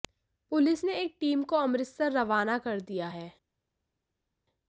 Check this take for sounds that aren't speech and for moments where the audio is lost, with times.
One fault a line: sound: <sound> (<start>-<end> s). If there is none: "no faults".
no faults